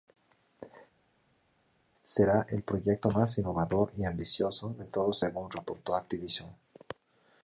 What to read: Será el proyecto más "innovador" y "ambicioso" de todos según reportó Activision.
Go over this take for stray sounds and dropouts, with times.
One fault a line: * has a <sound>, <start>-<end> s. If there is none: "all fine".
all fine